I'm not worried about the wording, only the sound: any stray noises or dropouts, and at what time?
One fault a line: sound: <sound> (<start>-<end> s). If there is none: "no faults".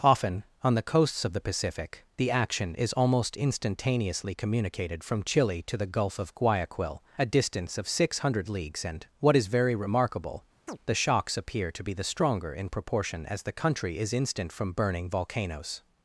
sound: chirp (10.7-10.8 s)